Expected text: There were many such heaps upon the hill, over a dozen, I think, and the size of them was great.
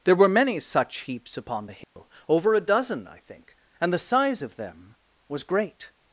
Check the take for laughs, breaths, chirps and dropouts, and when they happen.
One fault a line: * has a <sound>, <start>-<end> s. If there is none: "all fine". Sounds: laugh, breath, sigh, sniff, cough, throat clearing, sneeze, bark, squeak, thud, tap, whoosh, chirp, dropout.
* has a dropout, 1.8-2.0 s